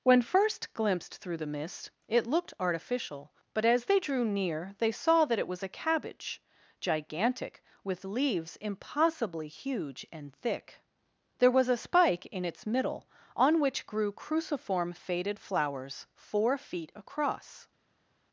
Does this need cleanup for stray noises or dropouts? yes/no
no